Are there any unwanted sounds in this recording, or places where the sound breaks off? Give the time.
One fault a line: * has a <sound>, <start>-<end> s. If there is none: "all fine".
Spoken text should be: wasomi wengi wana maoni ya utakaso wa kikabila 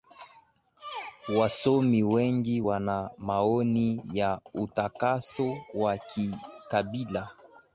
all fine